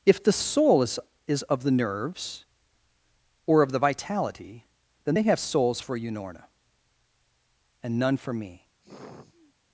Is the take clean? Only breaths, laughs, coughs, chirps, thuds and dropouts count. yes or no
no